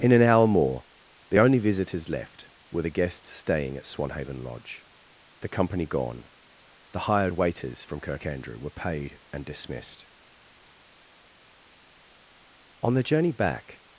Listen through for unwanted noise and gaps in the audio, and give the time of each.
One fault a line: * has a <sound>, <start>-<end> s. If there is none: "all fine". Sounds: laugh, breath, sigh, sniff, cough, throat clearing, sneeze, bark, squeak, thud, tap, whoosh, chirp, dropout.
all fine